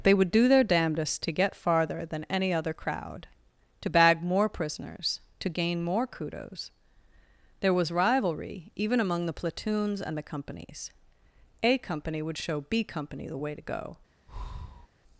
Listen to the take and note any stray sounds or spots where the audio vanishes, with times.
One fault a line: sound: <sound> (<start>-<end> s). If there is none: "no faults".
sound: breath (14.3-14.9 s)